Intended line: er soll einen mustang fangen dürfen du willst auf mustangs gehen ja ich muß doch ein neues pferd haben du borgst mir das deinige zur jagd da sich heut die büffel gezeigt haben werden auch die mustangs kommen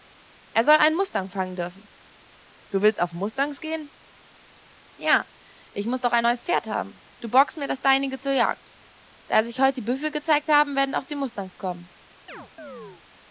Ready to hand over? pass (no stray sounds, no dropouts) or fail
fail